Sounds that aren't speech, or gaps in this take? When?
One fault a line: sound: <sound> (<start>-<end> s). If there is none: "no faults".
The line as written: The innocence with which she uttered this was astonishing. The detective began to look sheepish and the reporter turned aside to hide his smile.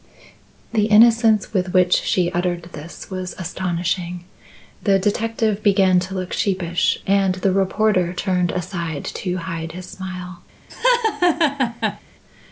sound: laugh (10.7-12.0 s)